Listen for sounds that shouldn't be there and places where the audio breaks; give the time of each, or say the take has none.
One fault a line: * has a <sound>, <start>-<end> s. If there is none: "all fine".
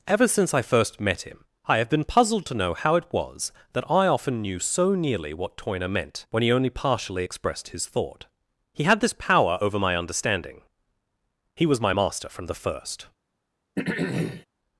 * has a throat clearing, 13.8-14.5 s